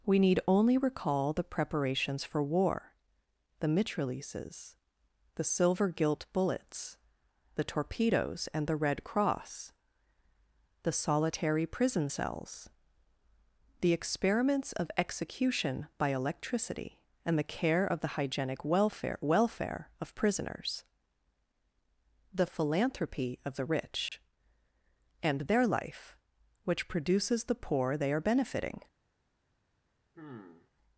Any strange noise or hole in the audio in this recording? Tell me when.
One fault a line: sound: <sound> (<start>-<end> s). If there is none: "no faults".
sound: dropout (24.1-24.1 s)
sound: sigh (30.1-30.7 s)